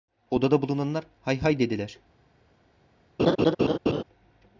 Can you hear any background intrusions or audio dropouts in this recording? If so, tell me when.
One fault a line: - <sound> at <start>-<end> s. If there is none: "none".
- laugh at 3.2-4.0 s